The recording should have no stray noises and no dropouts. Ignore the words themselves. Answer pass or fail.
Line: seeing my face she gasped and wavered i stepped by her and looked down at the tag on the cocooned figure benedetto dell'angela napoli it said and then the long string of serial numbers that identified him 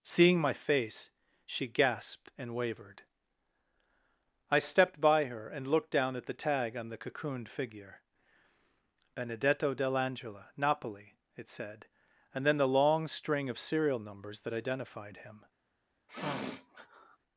fail